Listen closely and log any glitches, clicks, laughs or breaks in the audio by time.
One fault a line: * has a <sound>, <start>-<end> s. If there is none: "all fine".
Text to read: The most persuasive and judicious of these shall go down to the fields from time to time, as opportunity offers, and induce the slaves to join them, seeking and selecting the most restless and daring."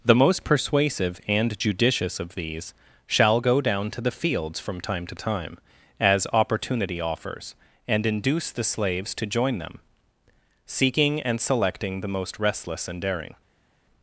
all fine